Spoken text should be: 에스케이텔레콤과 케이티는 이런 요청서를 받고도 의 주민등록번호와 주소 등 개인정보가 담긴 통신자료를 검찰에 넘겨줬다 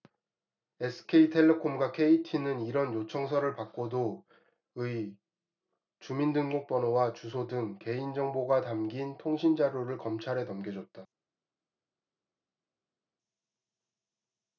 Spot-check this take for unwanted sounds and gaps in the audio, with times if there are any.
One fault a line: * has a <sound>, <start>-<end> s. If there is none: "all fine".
all fine